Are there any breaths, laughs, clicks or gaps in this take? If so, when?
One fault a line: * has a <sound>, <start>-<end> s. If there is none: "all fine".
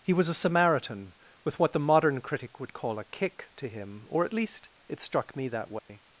* has a dropout, 5.8-5.9 s